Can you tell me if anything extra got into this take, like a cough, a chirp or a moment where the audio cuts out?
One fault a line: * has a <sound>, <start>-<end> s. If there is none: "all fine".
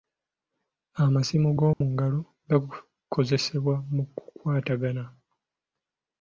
* has a dropout, 1.7-1.8 s